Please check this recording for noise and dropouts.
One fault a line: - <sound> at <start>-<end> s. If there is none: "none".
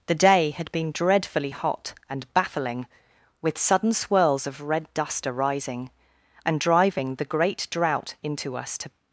none